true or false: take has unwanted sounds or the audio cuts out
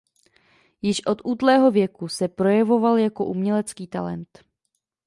false